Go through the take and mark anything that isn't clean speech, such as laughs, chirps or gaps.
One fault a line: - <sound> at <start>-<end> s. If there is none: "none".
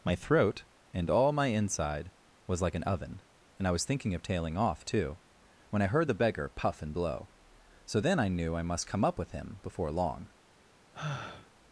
- sigh at 10.9-11.5 s